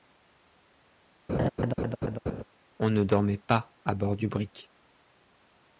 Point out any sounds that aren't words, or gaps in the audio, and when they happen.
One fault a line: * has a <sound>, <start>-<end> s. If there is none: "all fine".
* has a laugh, 1.3-2.4 s